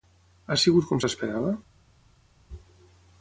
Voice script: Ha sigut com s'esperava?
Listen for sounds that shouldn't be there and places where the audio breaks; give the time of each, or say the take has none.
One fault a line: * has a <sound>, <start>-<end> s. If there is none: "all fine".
all fine